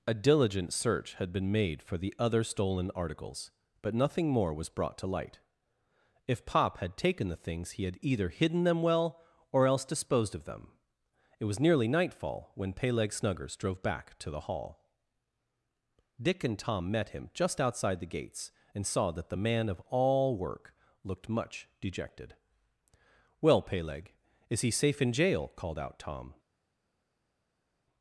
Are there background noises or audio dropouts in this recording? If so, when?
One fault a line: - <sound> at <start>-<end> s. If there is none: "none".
none